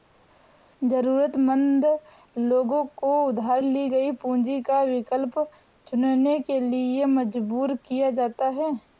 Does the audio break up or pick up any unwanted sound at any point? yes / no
no